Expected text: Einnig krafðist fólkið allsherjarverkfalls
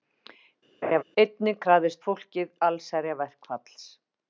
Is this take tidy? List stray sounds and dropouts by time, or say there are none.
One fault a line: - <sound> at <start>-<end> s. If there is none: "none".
- laugh at 0.8-1.0 s